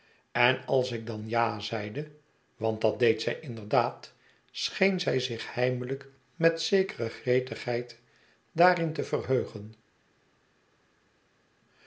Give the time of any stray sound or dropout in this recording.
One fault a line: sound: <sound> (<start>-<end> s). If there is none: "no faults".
no faults